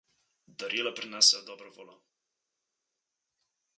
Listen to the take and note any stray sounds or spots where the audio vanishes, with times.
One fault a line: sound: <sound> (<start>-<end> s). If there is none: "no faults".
no faults